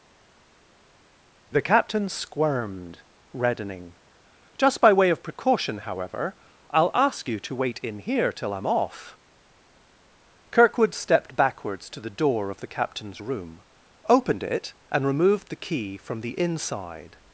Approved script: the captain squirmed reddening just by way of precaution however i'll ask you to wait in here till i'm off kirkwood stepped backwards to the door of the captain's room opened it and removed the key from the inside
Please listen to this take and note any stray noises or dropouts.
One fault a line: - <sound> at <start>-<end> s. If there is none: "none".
none